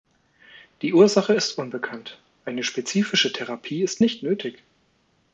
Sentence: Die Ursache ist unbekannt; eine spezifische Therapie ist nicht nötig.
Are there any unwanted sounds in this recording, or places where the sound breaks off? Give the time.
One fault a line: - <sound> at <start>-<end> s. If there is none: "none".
none